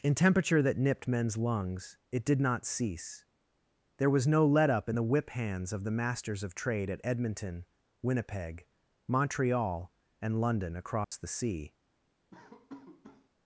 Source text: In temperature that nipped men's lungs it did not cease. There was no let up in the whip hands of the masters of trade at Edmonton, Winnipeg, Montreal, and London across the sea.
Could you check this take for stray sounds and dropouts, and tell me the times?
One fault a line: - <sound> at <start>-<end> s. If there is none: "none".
- dropout at 11.0-11.1 s
- laugh at 12.3-13.3 s